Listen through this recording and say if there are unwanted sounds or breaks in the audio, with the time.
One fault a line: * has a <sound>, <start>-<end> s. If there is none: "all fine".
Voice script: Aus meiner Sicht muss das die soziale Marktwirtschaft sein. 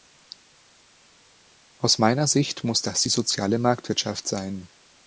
all fine